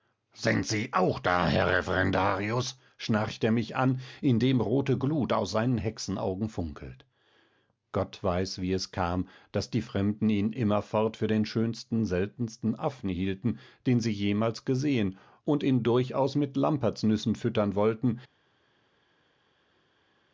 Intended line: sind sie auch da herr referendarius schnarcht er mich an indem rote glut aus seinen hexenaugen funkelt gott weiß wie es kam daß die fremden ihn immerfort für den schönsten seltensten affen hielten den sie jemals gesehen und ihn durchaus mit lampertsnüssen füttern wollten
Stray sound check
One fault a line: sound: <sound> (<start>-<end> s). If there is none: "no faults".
no faults